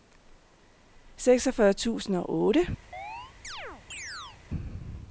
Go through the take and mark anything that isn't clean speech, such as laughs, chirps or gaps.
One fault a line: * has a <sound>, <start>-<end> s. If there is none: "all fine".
* has a chirp, 2.9-4.4 s